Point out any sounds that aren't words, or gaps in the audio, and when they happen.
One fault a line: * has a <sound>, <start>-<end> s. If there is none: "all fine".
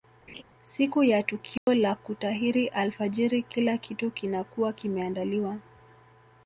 * has a laugh, 0.3-0.4 s
* has a dropout, 1.6-1.7 s